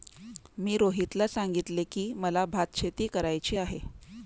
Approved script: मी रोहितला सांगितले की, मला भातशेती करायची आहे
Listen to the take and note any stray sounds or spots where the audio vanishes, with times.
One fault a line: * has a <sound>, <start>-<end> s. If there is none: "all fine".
all fine